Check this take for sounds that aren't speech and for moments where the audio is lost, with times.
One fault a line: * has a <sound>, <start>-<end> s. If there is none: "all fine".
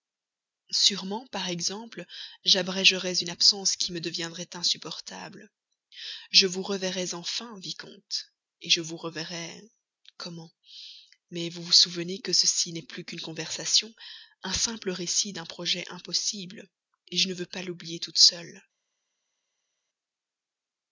all fine